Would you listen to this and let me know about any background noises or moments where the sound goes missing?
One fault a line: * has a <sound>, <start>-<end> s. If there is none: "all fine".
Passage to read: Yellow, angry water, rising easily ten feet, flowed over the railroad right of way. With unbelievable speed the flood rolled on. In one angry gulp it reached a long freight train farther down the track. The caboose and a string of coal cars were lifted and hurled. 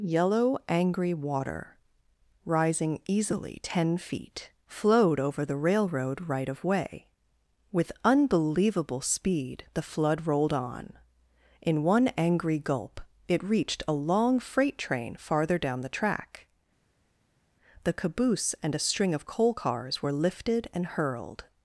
all fine